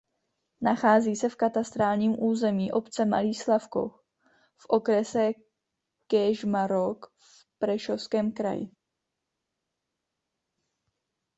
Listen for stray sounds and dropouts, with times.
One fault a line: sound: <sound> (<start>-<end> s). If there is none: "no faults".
no faults